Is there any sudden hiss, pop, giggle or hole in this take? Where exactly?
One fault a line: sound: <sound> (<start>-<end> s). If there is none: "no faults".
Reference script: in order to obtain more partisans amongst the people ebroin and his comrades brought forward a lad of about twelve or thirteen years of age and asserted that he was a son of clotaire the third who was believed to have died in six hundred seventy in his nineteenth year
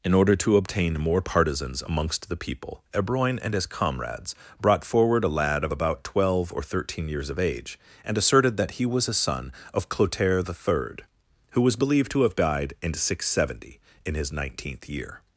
no faults